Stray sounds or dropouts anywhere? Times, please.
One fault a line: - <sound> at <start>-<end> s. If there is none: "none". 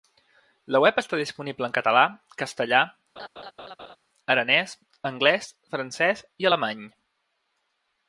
- laugh at 3.2-4.0 s